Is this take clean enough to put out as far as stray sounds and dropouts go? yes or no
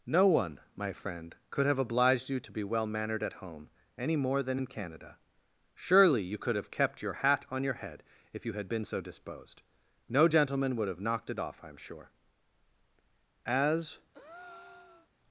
no